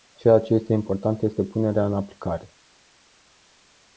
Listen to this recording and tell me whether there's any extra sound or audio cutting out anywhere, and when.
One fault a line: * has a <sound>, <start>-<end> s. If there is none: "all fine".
all fine